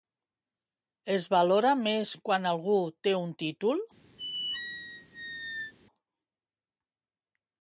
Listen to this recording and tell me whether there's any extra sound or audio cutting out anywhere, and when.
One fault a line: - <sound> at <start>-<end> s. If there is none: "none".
- squeak at 4.2-5.7 s